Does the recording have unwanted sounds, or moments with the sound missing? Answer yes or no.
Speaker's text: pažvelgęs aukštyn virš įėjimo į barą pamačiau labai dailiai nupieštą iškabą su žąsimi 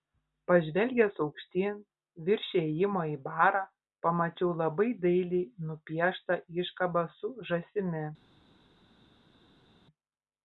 no